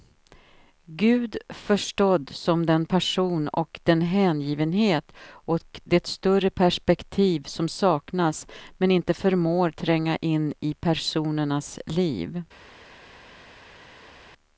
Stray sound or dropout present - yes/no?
no